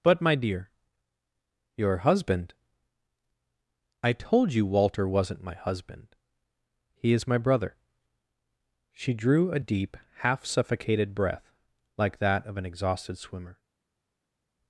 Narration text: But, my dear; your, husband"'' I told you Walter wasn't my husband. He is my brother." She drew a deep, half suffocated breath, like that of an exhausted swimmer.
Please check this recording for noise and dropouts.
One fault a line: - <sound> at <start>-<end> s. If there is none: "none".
none